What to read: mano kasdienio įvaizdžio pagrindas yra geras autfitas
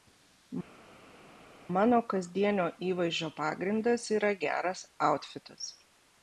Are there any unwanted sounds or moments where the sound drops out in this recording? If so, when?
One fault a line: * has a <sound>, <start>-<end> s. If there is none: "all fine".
all fine